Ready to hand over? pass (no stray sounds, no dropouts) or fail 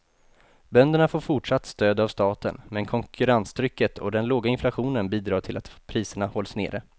pass